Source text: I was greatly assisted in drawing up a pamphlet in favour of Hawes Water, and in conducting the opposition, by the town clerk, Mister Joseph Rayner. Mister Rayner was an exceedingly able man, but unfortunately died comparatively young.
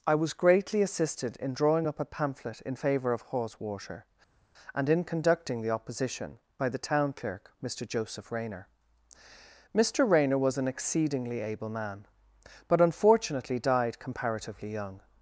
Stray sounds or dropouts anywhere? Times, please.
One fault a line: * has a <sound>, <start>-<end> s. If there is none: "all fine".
all fine